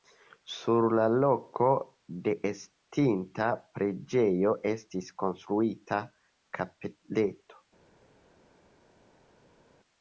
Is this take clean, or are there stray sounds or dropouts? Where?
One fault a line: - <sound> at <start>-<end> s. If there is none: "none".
none